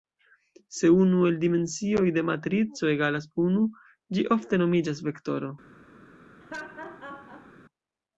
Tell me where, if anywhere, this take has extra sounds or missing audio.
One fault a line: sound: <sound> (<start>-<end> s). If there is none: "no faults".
sound: laugh (6.4-7.5 s)